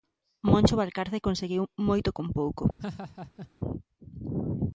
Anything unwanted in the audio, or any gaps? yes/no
yes